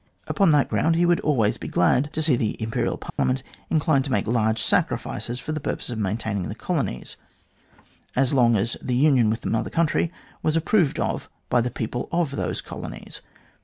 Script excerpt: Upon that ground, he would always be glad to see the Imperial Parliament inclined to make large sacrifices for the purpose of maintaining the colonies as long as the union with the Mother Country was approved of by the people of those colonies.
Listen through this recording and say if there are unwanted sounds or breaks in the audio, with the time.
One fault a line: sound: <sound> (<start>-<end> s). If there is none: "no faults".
sound: dropout (3.1-3.2 s)